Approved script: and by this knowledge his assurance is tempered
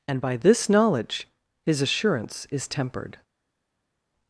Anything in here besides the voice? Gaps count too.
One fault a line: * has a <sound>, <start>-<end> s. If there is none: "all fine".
all fine